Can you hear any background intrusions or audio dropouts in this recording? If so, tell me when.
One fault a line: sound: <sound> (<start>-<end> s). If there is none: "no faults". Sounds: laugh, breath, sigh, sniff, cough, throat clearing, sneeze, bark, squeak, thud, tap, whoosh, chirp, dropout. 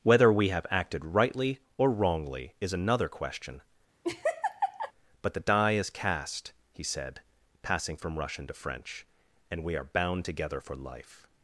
sound: laugh (4.0-4.9 s)